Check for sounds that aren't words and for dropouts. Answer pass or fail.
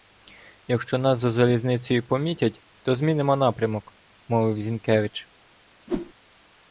fail